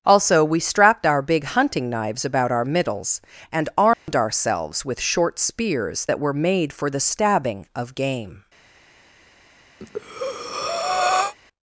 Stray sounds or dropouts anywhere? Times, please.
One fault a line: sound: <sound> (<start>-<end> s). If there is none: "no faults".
sound: dropout (3.9-4.1 s)
sound: breath (9.8-11.3 s)